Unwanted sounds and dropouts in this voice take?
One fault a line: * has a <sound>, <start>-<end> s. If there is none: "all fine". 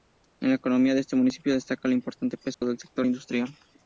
* has a dropout, 2.5-2.6 s